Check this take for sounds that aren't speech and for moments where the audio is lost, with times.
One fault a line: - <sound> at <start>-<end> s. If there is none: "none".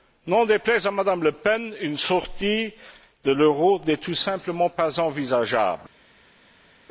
none